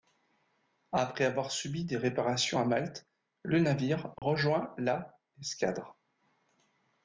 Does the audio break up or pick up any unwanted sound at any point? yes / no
yes